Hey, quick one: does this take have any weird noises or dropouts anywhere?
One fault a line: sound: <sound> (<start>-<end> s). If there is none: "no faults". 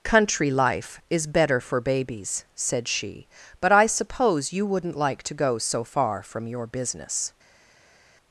no faults